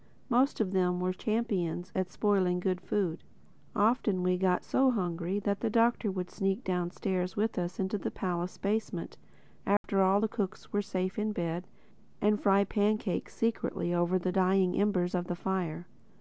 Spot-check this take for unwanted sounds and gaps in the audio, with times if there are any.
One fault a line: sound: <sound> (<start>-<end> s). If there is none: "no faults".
sound: dropout (9.8-9.8 s)